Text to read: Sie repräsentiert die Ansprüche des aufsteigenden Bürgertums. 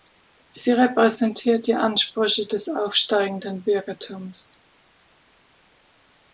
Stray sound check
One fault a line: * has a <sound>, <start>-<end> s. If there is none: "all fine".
all fine